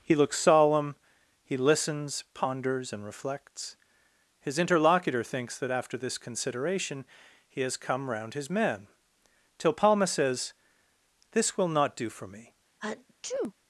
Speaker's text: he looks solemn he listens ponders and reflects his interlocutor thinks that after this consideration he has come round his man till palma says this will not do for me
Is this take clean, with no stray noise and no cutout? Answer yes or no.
no